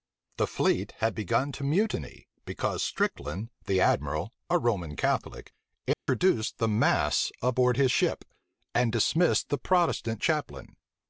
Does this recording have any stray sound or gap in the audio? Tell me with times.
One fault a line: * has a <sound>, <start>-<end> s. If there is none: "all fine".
* has a dropout, 5.9-6.1 s